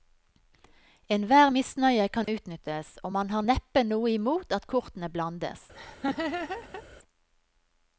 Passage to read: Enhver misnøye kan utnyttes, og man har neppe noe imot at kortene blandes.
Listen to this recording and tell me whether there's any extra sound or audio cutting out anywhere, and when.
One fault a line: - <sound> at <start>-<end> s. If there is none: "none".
- dropout at 2.2-2.3 s
- laugh at 5.7-6.8 s